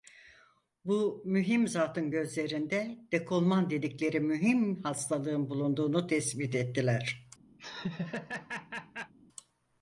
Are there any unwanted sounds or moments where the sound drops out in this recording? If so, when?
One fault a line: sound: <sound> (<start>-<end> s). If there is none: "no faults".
sound: laugh (7.6-9.1 s)